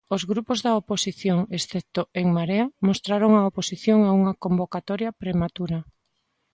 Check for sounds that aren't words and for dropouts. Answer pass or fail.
pass